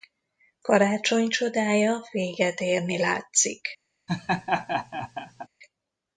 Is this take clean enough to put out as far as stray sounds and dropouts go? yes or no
no